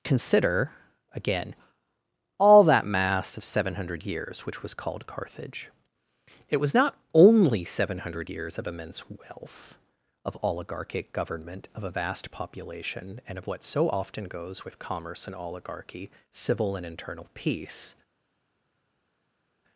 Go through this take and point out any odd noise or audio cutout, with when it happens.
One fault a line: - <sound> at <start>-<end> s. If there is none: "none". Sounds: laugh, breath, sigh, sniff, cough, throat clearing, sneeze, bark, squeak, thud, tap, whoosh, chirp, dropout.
none